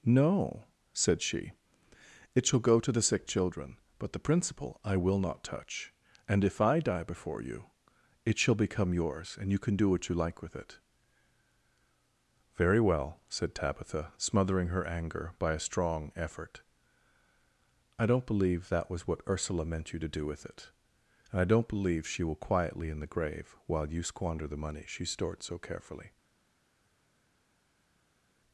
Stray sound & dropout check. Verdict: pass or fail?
pass